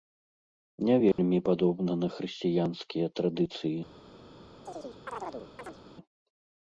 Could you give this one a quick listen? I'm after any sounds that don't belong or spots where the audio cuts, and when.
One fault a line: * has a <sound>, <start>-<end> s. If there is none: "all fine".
* has a dropout, 1.1-1.2 s
* has a chirp, 4.7-5.8 s